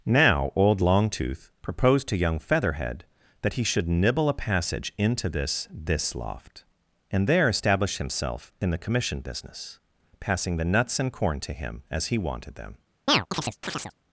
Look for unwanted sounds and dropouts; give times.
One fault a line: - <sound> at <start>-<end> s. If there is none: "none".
- chirp at 13.1-13.9 s